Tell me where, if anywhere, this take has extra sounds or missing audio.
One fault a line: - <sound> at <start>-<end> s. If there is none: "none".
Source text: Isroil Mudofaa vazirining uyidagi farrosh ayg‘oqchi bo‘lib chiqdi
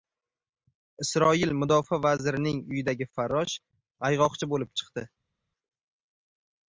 none